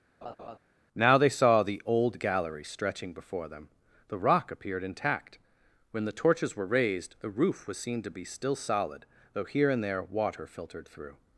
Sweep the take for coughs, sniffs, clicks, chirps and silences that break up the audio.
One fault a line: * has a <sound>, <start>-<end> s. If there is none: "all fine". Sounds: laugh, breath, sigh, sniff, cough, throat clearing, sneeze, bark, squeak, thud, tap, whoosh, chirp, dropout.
* has a laugh, 0.2-0.6 s